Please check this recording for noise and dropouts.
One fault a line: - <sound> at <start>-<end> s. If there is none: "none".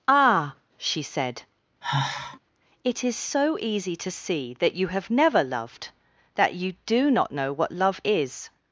- sigh at 1.8-2.4 s